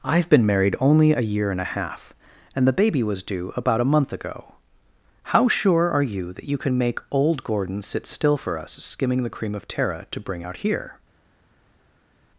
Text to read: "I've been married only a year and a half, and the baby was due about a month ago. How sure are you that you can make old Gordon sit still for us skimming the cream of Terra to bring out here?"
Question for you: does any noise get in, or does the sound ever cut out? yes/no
no